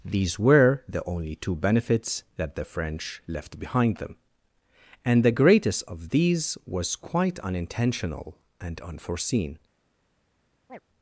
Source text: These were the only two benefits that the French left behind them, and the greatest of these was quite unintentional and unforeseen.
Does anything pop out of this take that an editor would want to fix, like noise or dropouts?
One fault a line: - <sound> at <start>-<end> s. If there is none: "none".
- chirp at 10.7-10.8 s